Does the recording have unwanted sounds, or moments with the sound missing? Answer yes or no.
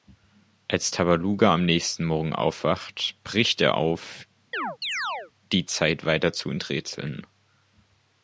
yes